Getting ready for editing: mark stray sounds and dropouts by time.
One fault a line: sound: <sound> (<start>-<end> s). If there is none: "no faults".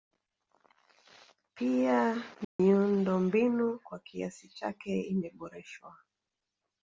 sound: dropout (2.4-2.6 s)